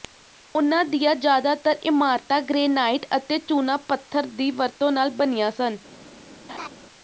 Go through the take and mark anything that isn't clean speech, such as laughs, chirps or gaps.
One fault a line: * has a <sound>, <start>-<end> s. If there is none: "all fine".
* has a laugh, 6.5-6.7 s